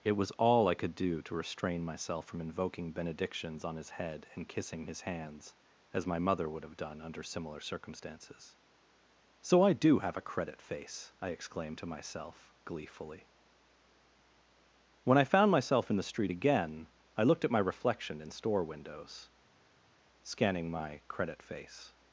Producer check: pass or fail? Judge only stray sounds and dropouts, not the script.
pass